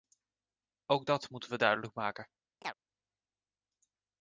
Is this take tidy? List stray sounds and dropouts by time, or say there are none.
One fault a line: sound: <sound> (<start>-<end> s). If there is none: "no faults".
sound: chirp (2.6-2.7 s)